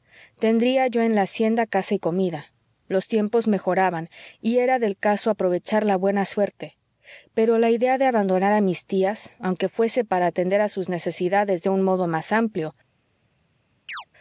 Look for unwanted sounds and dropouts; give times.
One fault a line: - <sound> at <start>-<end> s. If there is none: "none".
- chirp at 13.9-14.1 s